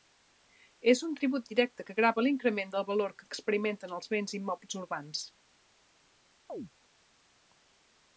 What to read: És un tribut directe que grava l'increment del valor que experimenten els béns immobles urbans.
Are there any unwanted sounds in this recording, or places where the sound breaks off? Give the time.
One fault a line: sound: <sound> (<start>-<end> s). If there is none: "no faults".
sound: chirp (6.5-6.7 s)